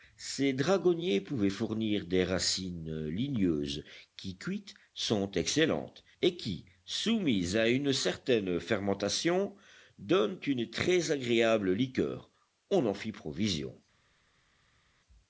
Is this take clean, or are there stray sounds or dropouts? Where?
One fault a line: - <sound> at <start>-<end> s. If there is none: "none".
none